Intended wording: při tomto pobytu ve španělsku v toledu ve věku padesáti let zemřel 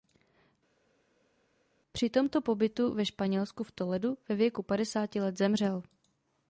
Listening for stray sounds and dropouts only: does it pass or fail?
pass